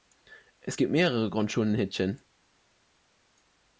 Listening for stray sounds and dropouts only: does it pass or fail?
pass